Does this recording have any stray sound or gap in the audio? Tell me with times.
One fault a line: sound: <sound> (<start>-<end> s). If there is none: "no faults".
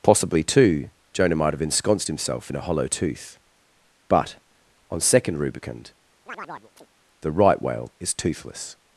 sound: chirp (6.3-6.9 s)